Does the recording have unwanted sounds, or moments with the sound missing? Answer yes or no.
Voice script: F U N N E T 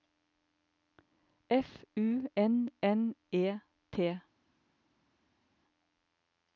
no